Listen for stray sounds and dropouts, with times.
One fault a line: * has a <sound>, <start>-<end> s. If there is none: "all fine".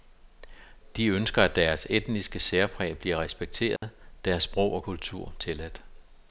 * has a dropout, 3.8-3.8 s